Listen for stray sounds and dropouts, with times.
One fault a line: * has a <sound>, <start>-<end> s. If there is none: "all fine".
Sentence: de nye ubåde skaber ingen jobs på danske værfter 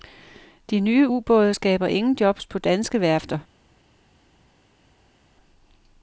all fine